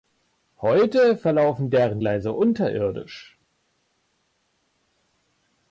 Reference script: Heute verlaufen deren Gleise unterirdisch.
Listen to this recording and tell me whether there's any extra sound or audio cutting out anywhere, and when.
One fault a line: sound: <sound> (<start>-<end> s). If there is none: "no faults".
no faults